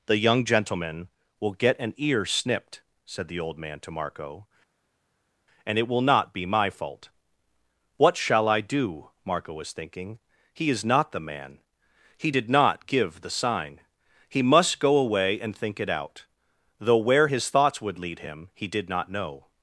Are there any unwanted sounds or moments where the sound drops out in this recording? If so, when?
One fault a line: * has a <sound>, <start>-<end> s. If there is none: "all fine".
all fine